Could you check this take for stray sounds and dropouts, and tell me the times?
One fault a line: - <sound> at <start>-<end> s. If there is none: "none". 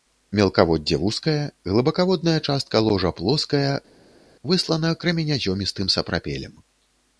none